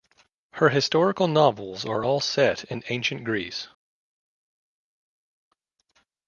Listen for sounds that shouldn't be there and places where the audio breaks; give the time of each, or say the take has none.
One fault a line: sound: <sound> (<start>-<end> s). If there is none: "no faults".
no faults